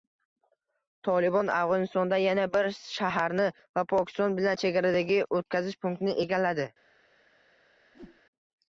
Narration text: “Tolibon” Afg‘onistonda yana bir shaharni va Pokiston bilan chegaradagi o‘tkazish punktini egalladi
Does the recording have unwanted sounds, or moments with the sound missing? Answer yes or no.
yes